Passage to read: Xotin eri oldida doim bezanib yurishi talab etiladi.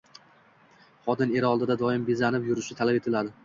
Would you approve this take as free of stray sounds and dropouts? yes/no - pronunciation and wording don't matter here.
yes